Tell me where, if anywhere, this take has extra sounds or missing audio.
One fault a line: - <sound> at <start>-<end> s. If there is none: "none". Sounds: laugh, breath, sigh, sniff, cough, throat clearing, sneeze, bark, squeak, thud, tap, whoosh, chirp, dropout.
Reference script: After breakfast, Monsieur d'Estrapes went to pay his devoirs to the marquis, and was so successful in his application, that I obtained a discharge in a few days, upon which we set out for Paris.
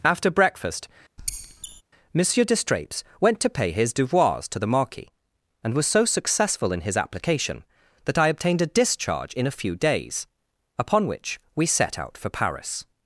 - squeak at 1.2-1.8 s